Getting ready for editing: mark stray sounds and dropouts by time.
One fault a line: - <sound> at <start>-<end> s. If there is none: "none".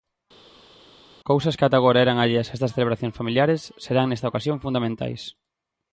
none